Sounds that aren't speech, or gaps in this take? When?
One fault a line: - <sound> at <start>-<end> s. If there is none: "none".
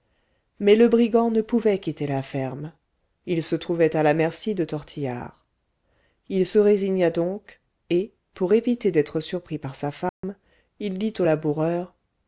- dropout at 10.1-10.2 s